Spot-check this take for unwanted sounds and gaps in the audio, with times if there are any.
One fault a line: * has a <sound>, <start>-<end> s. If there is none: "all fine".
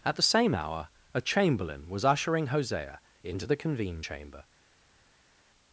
all fine